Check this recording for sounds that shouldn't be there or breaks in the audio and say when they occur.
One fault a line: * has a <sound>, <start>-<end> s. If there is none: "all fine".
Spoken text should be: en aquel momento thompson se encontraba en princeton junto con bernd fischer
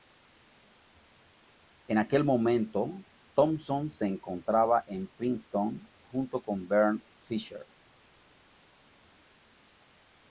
all fine